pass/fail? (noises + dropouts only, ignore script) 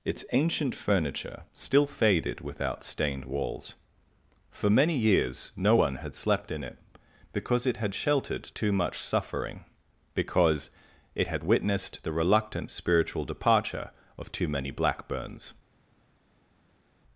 pass